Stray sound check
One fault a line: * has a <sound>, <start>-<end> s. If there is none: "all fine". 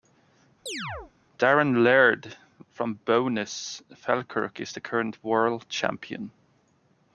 * has a chirp, 0.7-1.1 s